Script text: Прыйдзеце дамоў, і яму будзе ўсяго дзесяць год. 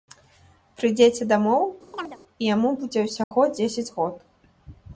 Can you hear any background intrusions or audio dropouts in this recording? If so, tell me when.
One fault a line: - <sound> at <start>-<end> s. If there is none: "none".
- chirp at 1.9-2.2 s
- dropout at 3.2-3.3 s